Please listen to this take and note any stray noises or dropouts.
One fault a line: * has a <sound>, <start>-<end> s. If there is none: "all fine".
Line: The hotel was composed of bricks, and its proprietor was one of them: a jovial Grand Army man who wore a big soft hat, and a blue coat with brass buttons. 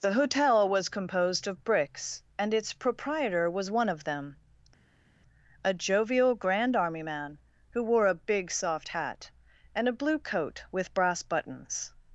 all fine